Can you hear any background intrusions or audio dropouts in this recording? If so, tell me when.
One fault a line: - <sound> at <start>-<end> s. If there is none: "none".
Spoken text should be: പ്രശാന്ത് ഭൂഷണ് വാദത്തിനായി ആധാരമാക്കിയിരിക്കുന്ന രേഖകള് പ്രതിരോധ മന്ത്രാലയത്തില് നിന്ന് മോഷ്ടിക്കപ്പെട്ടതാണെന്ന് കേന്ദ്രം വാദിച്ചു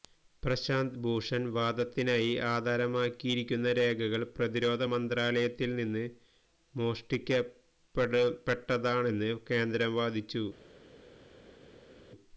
none